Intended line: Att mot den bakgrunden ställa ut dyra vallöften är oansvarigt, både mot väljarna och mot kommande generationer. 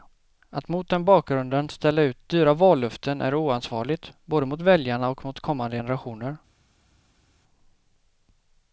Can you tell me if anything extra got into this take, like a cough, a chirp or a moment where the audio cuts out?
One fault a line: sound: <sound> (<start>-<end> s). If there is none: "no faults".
no faults